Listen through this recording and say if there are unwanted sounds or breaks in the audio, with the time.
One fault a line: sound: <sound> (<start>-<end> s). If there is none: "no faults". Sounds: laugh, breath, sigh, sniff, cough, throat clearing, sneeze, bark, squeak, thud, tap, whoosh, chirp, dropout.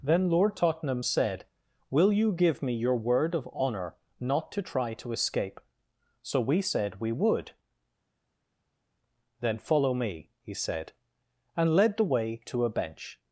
no faults